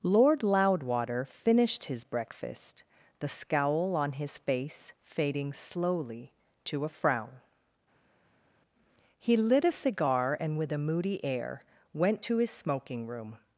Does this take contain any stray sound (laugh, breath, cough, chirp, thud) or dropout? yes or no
no